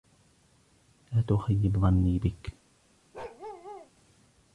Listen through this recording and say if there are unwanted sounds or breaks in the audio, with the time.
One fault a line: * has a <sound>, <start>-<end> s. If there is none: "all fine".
* has a bark, 3.1-3.9 s